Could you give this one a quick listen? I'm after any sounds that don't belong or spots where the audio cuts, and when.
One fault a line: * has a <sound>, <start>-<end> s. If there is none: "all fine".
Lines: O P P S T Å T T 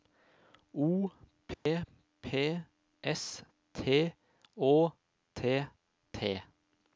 * has a dropout, 1.5-1.7 s